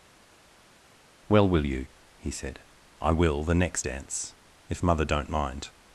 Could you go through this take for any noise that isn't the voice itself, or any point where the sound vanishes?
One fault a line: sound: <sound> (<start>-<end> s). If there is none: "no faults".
no faults